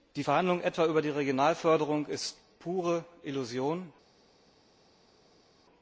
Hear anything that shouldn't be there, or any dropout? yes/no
no